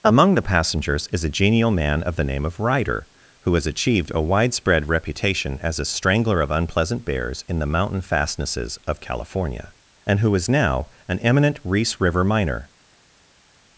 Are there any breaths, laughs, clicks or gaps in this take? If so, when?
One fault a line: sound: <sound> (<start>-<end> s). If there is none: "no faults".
no faults